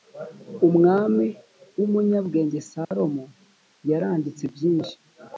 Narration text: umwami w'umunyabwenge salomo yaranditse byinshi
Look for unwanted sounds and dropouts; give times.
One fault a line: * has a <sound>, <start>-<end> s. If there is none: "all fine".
* has a dropout, 2.8-2.9 s